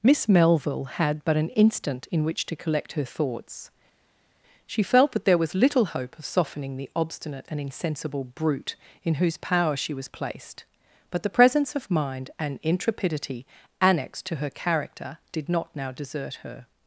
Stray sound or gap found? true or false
false